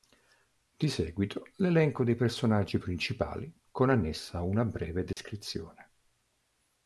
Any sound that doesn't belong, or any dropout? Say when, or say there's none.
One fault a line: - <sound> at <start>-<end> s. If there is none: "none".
- dropout at 5.1-5.2 s